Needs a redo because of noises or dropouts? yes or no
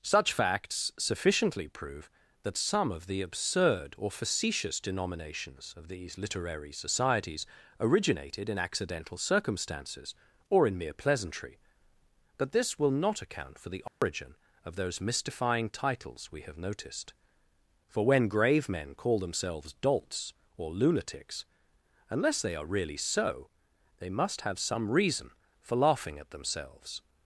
yes